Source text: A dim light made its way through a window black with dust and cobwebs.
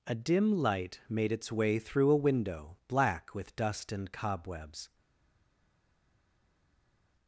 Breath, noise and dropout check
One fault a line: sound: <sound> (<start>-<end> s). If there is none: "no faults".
no faults